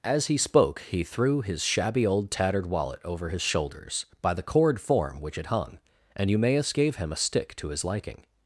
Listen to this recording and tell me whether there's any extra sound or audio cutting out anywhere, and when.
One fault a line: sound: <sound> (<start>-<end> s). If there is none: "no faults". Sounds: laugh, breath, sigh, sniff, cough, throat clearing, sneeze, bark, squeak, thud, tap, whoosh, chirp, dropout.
no faults